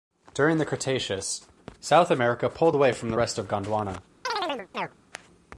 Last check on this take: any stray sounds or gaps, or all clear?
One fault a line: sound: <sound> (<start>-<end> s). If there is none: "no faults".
sound: chirp (4.2-5.0 s)